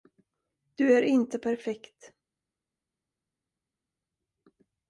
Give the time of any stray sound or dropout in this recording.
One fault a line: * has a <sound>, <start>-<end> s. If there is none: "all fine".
all fine